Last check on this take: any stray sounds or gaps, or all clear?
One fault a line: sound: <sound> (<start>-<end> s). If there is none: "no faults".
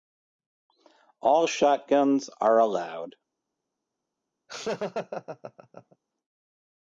sound: laugh (4.5-6.0 s)